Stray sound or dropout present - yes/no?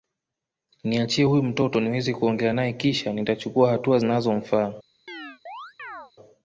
yes